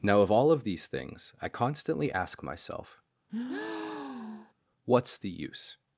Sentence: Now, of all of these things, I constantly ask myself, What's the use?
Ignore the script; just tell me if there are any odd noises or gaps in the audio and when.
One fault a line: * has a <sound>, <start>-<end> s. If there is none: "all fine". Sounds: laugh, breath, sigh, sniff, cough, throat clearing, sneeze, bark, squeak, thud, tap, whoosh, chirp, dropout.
* has a breath, 3.3-4.5 s